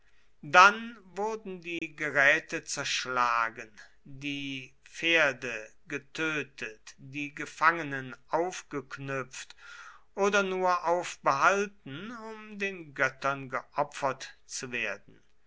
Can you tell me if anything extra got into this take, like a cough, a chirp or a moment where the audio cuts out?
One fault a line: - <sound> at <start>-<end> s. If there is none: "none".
- dropout at 1.8-1.8 s